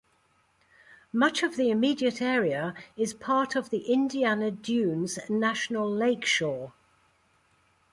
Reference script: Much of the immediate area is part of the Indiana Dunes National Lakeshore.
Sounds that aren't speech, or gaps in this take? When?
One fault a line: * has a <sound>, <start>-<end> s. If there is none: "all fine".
all fine